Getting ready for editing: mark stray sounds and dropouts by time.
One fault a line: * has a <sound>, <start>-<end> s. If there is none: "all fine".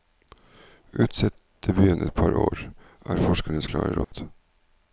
* has a dropout, 4.0-4.1 s